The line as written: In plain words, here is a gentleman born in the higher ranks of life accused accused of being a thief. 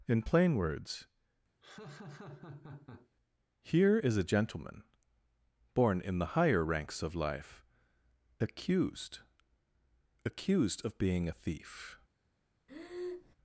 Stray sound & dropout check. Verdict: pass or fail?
fail